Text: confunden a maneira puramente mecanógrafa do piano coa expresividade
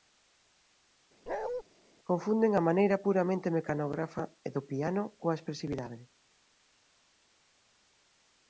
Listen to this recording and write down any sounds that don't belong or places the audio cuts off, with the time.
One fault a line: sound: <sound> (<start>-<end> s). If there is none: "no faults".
sound: bark (1.3-1.6 s)